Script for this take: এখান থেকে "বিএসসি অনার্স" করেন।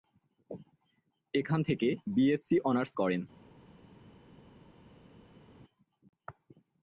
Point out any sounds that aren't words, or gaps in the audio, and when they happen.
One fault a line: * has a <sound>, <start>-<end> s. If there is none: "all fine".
all fine